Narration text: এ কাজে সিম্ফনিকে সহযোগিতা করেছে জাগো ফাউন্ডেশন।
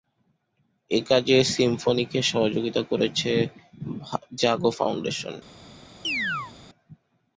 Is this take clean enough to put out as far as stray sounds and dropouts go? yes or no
no